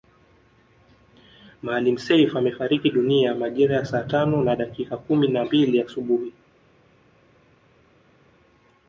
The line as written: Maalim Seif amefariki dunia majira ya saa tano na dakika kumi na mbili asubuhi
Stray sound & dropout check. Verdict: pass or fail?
pass